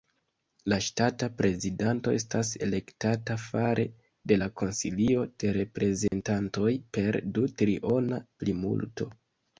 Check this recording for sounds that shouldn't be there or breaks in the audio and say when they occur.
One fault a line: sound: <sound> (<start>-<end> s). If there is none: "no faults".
sound: dropout (6.1-6.1 s)